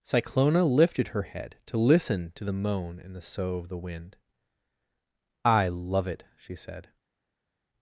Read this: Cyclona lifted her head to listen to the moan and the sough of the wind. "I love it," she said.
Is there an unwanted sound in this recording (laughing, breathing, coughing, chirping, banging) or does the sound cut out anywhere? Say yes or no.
no